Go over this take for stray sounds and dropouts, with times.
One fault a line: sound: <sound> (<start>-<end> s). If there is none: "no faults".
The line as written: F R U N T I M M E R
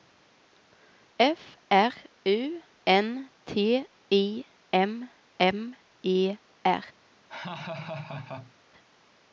sound: laugh (7.3-8.5 s)